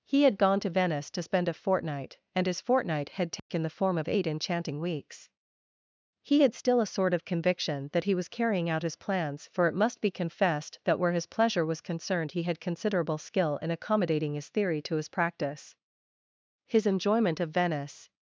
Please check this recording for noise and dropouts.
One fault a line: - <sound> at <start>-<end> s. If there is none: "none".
- dropout at 3.4-3.5 s